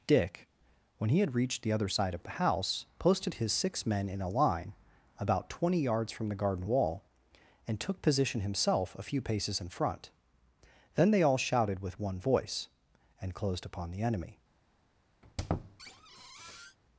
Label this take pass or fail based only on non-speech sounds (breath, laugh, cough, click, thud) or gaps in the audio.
fail